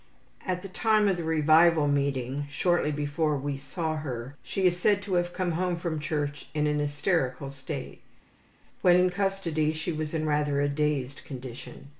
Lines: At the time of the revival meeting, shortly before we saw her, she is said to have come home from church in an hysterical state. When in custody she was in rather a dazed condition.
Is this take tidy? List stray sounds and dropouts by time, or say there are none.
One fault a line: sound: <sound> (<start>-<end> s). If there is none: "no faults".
no faults